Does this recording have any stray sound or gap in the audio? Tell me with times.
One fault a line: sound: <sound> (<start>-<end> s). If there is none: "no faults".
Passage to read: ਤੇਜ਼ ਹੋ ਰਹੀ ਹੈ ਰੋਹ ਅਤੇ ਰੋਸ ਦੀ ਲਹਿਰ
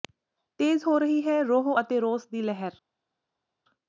no faults